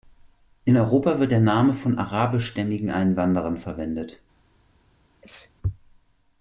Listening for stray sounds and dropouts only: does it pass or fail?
fail